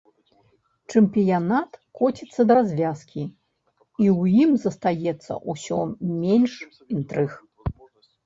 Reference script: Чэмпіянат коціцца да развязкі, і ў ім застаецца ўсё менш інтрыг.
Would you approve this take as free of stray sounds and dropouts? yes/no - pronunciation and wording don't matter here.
yes